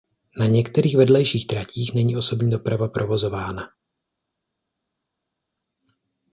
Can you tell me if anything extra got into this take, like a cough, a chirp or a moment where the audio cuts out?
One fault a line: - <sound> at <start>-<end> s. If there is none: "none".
none